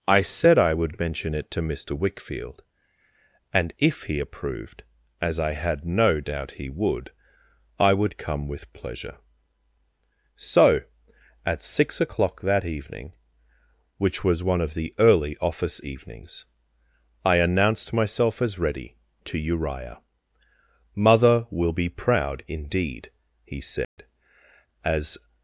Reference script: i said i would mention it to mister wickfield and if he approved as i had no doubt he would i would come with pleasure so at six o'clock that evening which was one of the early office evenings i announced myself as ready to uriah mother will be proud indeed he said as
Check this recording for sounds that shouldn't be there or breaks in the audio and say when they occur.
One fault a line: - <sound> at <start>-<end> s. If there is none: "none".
- dropout at 23.8-24.0 s